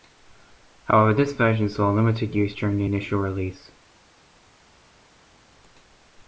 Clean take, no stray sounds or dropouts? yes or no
yes